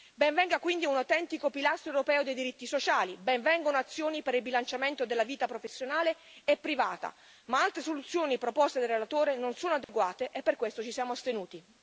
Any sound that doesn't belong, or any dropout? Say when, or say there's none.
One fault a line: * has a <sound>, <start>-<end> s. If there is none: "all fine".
* has a dropout, 9.8-9.9 s